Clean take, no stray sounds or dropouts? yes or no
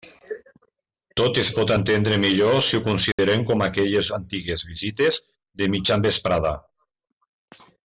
no